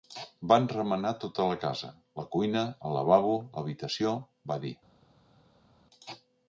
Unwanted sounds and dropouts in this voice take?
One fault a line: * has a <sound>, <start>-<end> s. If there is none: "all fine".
all fine